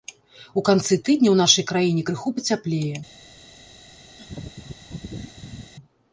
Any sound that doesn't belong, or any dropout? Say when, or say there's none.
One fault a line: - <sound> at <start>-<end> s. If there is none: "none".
- laugh at 4.2-5.7 s